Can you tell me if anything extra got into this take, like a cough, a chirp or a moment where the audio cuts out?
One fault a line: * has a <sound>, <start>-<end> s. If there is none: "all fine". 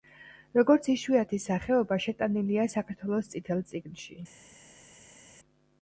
all fine